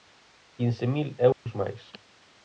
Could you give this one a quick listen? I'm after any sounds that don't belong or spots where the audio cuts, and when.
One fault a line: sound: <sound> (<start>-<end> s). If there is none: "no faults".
sound: dropout (1.3-1.5 s)